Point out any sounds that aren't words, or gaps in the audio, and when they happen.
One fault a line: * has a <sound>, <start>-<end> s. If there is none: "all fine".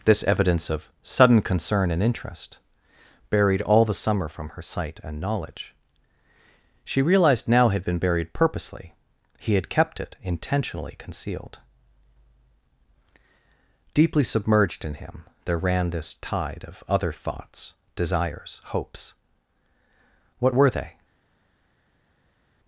all fine